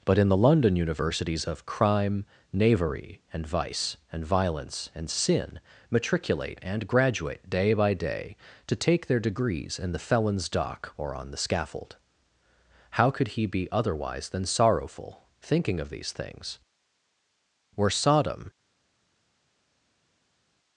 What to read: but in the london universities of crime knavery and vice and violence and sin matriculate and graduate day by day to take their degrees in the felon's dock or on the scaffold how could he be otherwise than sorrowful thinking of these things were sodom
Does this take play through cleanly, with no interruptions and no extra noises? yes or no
yes